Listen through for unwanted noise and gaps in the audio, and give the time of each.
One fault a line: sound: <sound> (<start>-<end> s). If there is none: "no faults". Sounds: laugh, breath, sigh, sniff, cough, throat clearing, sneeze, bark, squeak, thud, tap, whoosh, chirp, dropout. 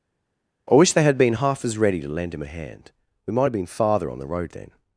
no faults